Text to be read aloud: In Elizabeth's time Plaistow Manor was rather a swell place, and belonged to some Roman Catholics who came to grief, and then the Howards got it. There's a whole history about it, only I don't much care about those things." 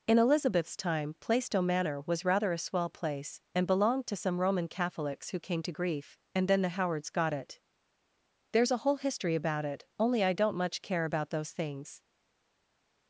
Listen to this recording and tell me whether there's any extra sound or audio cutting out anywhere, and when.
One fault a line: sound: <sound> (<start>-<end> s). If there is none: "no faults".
no faults